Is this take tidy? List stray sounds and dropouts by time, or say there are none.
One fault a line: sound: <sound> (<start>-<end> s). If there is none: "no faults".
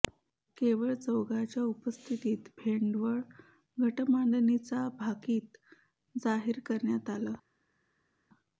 no faults